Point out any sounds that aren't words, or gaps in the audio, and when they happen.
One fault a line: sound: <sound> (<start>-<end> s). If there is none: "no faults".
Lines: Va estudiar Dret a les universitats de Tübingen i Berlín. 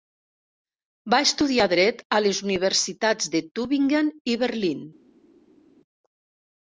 no faults